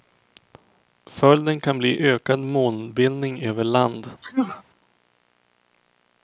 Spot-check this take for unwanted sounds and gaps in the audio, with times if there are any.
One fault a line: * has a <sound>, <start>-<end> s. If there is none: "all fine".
* has a sneeze, 4.2-4.6 s